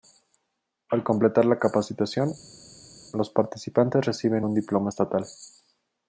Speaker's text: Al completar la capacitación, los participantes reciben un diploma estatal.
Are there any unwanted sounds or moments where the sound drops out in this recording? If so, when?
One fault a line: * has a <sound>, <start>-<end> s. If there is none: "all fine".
all fine